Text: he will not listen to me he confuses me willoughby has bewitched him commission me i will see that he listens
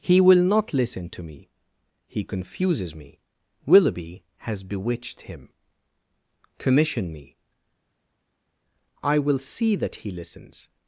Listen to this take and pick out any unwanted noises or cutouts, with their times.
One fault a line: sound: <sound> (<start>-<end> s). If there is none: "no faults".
no faults